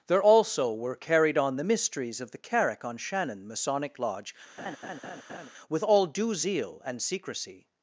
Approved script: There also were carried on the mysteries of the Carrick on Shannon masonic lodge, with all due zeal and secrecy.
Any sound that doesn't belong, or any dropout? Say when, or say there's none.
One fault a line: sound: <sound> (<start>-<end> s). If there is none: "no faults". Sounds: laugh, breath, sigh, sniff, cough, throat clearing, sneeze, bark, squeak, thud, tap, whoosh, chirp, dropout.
sound: laugh (4.6-5.5 s)